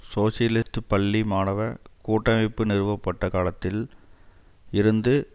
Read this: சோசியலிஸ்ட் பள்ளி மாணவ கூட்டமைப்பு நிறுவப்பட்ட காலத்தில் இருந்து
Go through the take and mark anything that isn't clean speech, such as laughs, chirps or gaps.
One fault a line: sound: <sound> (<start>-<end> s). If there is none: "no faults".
sound: dropout (0.6-0.7 s)